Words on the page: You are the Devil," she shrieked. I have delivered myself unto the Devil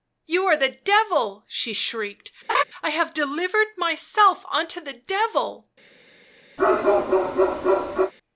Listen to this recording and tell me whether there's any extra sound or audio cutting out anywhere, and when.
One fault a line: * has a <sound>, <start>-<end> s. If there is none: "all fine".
* has a laugh, 2.5-2.6 s
* has a bark, 6.6-8.1 s